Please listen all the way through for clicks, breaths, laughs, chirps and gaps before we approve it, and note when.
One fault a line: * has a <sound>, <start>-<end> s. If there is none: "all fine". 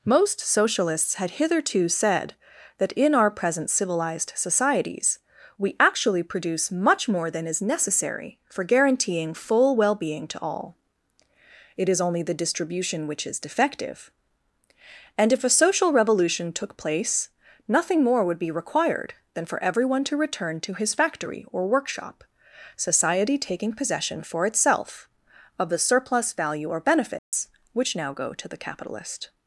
* has a dropout, 27.2-27.3 s